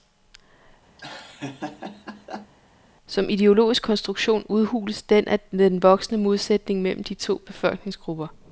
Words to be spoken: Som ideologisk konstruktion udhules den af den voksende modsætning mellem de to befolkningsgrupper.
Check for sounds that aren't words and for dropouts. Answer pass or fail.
fail